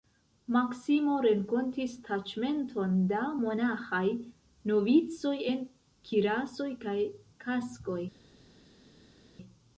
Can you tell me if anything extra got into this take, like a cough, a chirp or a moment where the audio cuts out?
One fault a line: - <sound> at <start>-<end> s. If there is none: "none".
none